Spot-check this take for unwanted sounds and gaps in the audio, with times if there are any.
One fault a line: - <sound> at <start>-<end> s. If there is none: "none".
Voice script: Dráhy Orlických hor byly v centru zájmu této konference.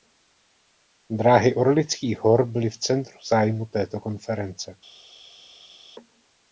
none